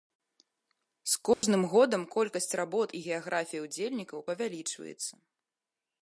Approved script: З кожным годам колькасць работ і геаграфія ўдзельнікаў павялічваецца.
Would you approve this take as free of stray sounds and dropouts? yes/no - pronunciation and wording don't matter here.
no